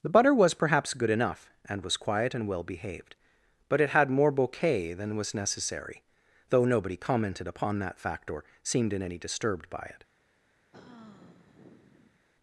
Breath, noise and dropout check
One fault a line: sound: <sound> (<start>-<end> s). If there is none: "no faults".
sound: sigh (10.7-12.2 s)